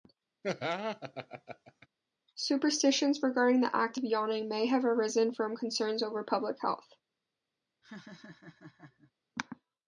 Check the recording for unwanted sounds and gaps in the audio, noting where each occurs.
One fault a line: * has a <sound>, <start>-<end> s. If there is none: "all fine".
* has a laugh, 0.4-1.9 s
* has a laugh, 7.8-9.1 s